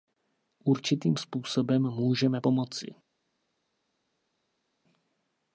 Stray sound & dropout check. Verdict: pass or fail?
pass